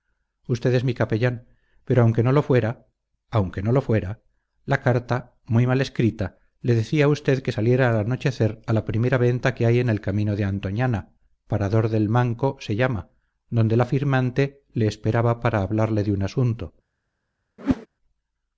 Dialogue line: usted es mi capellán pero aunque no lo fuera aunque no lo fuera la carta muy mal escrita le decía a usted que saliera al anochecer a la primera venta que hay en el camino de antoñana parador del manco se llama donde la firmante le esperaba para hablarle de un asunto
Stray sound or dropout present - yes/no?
yes